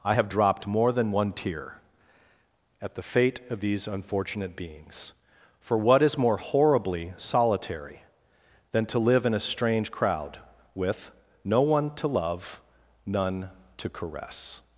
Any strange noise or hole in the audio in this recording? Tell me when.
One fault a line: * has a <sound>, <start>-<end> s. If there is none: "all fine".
all fine